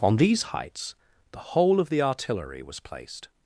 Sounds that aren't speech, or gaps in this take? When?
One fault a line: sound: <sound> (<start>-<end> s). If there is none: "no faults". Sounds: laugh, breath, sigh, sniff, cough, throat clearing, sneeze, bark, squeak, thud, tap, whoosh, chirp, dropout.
no faults